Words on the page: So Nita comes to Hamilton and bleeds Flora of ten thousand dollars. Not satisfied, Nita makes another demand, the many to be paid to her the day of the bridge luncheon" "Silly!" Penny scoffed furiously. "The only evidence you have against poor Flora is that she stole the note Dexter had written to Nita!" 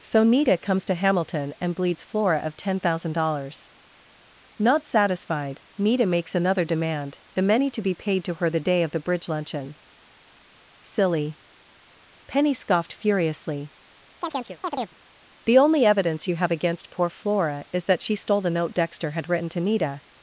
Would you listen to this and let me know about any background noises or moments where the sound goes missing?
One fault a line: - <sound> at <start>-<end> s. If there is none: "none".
- chirp at 14.2-14.9 s